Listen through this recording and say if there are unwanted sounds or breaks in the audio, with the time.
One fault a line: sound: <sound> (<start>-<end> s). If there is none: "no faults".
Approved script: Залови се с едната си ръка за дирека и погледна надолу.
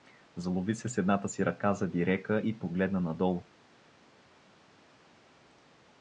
no faults